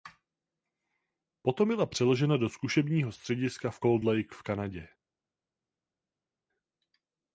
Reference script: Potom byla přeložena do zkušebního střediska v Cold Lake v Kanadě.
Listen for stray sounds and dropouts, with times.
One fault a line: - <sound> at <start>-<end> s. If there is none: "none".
none